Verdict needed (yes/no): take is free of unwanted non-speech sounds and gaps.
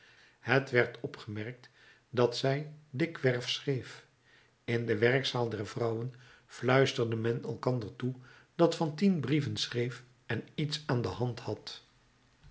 yes